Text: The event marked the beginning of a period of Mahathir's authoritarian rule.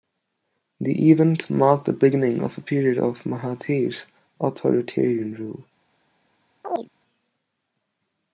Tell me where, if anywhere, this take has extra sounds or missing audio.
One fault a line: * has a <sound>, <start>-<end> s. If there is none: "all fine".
* has a chirp, 6.6-6.9 s